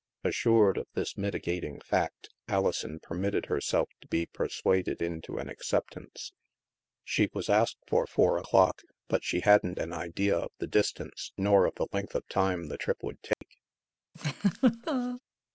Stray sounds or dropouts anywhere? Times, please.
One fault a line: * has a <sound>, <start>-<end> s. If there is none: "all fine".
* has a dropout, 13.3-13.4 s
* has a laugh, 14.1-15.2 s